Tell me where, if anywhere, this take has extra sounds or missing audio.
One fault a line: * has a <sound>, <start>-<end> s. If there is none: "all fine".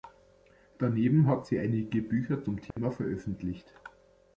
* has a dropout, 2.7-2.8 s